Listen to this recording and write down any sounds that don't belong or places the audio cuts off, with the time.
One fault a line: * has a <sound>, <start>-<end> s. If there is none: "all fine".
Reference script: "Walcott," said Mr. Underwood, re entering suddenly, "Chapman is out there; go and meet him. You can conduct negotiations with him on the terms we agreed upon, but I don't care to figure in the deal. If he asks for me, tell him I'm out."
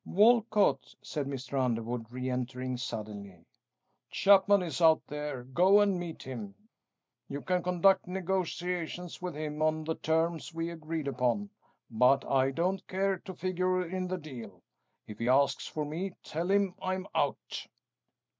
all fine